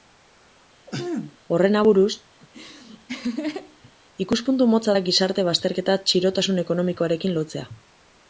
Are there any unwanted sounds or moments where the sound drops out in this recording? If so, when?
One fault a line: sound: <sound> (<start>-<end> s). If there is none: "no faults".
sound: throat clearing (0.9-1.4 s)
sound: laugh (2.4-3.9 s)